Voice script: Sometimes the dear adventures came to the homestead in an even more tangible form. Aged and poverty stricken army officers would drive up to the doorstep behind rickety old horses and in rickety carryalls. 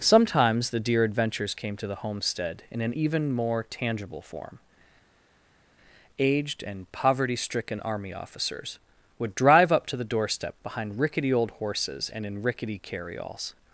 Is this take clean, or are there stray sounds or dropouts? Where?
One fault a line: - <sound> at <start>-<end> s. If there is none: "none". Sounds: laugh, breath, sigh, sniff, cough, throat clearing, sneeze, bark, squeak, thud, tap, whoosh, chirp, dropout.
none